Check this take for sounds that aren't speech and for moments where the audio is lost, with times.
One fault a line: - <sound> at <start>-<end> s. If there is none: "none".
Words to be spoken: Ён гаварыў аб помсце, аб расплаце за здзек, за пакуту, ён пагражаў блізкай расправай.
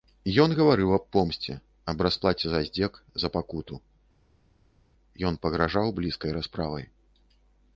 none